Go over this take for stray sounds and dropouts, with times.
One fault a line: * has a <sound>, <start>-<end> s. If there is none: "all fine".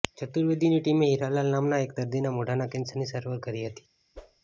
* has a whoosh, 4.1-4.4 s